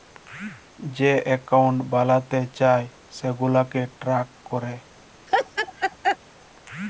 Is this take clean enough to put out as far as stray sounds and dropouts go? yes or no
no